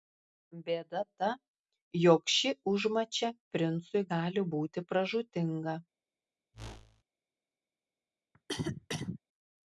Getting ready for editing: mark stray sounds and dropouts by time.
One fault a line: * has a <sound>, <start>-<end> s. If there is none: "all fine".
* has a whoosh, 6.5-7.0 s
* has a cough, 8.3-9.2 s